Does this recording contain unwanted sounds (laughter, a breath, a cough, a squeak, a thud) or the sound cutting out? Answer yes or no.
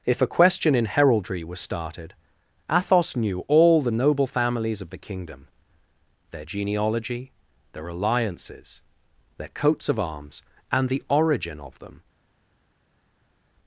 no